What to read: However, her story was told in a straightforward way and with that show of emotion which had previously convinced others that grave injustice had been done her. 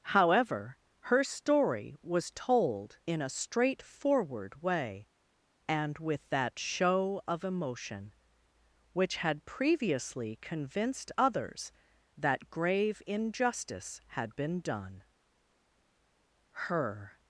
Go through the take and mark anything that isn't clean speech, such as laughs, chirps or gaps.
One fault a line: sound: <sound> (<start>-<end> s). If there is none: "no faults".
no faults